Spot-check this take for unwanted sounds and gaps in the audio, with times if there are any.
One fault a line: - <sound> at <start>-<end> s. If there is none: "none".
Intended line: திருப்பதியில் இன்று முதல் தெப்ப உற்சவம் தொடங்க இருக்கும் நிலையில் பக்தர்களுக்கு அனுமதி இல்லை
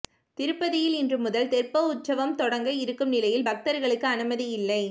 none